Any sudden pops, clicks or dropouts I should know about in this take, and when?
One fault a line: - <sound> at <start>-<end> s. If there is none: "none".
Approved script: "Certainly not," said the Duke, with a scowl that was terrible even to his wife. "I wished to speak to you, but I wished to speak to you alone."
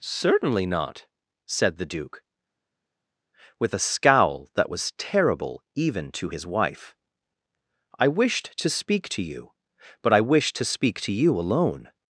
none